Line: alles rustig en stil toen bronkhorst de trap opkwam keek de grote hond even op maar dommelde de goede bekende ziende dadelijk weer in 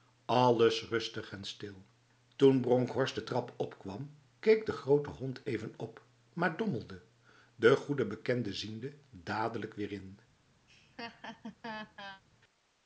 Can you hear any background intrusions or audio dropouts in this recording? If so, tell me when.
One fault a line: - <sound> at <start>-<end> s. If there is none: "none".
- laugh at 10.7-12.2 s